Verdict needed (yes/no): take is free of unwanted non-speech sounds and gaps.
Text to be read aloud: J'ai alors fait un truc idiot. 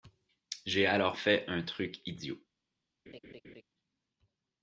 no